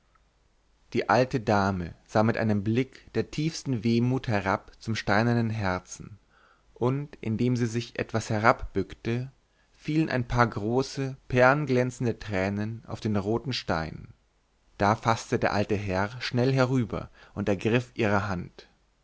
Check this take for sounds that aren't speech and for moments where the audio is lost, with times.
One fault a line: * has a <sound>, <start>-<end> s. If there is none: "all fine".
all fine